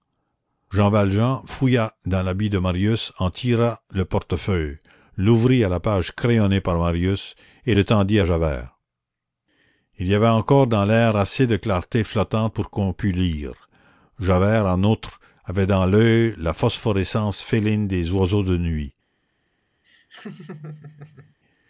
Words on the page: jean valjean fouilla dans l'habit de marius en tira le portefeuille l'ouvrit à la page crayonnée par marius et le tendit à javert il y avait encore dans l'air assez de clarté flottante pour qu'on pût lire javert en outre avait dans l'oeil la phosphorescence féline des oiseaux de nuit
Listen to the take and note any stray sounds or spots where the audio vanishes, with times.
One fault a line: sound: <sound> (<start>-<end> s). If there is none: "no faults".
sound: laugh (19.8-21.4 s)